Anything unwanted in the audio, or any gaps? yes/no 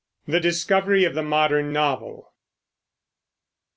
no